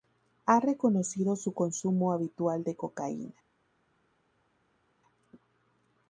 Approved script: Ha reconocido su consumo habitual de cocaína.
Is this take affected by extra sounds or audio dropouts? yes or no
no